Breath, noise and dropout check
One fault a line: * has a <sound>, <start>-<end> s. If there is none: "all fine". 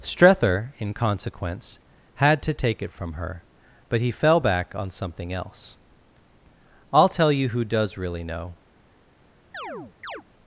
* has a chirp, 9.5-10.2 s